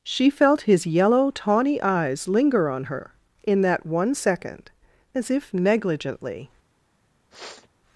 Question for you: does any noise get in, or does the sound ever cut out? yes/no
yes